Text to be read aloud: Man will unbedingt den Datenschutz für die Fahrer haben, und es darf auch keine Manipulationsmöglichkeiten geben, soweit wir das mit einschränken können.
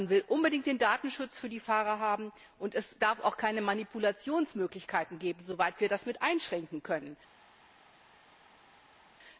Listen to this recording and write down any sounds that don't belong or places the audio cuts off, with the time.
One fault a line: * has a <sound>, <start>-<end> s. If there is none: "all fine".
all fine